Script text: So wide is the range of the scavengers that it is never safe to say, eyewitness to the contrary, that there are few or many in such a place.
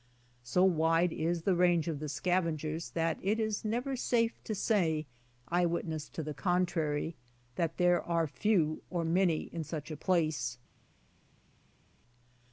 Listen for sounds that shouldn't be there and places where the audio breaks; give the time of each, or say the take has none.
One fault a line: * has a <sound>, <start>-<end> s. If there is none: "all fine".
all fine